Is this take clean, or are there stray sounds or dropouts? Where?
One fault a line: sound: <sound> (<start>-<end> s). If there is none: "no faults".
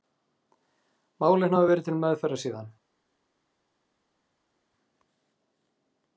no faults